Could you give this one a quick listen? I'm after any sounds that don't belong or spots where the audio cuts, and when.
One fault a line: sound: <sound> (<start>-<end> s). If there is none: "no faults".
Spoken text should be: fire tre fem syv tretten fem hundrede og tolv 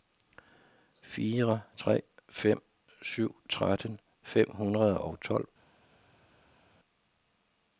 no faults